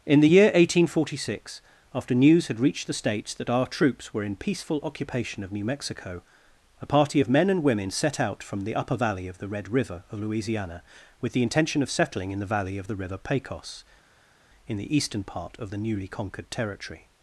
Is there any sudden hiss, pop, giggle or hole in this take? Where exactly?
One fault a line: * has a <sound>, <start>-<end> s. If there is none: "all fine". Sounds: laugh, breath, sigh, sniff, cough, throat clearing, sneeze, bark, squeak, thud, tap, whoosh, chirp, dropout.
all fine